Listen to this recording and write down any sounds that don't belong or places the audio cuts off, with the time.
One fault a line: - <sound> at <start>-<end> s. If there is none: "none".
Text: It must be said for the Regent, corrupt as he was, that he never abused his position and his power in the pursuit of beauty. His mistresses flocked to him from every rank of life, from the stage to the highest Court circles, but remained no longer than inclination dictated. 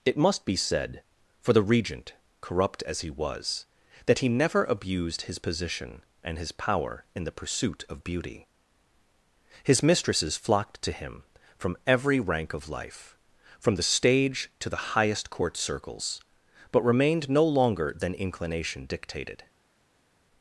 none